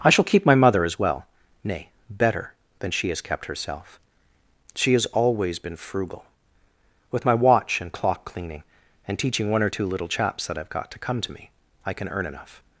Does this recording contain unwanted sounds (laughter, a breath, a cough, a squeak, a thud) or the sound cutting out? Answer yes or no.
no